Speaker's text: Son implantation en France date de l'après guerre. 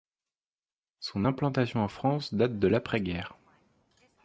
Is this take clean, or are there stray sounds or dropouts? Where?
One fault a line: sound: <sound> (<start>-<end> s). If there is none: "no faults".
no faults